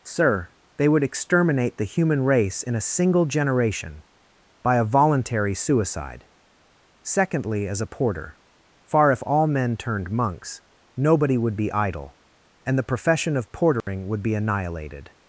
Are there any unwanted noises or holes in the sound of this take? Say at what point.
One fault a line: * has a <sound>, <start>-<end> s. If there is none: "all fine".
* has a dropout, 13.8-13.9 s